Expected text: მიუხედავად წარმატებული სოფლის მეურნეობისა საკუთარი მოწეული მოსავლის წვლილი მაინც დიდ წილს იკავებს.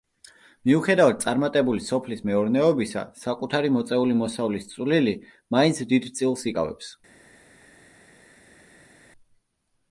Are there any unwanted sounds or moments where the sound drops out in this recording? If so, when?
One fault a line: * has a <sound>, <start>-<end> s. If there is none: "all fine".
all fine